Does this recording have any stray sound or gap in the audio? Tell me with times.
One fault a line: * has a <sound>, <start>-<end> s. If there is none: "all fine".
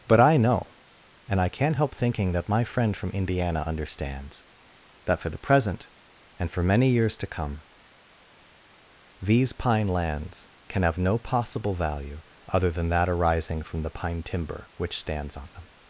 all fine